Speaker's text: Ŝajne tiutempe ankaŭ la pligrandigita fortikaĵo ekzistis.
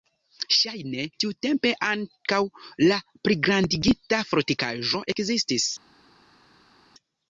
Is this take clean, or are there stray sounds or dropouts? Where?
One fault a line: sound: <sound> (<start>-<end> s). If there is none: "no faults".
no faults